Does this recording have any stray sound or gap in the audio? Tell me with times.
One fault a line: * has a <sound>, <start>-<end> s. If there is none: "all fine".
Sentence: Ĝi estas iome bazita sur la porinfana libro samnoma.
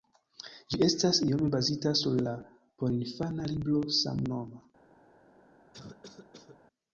* has a cough, 5.7-6.6 s